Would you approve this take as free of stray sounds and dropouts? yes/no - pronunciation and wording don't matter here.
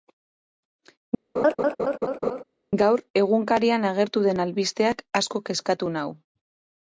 no